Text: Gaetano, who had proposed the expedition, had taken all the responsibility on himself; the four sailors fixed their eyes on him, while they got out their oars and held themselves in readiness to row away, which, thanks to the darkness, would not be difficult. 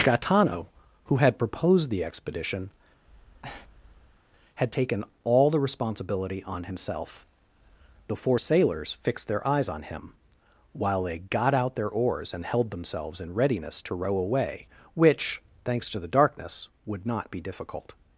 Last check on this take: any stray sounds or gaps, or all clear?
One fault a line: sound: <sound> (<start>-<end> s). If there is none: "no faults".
sound: breath (3.0-4.2 s)